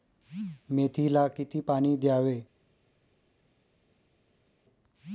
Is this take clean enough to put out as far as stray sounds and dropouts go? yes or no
yes